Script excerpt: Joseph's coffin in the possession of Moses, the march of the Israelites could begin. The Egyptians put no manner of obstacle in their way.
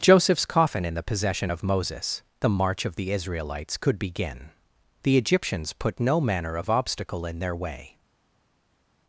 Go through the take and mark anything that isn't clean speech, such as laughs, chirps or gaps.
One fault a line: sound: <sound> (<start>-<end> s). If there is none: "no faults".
no faults